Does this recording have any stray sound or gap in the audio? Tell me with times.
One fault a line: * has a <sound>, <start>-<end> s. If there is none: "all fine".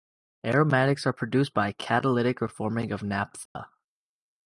* has a dropout, 3.5-3.6 s